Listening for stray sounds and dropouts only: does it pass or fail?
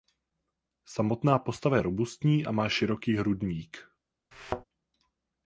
fail